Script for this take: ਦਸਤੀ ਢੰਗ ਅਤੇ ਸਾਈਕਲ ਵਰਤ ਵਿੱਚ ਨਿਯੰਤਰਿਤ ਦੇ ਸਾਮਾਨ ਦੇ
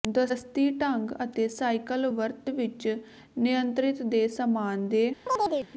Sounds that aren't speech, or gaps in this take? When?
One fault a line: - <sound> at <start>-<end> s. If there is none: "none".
- chirp at 5.3-5.7 s